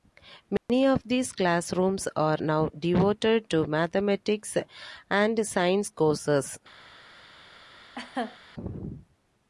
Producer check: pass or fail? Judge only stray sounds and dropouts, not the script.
fail